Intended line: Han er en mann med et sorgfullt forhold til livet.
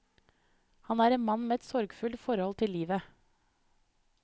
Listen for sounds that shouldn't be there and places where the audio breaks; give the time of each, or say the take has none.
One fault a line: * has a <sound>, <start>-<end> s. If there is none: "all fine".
all fine